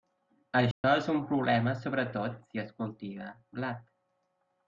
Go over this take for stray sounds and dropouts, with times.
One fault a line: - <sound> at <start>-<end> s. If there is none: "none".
- dropout at 0.7-0.8 s